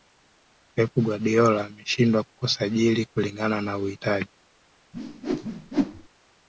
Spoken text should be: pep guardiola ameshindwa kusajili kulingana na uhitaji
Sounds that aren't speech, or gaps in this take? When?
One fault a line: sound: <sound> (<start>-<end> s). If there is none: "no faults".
sound: whoosh (4.9-6.1 s)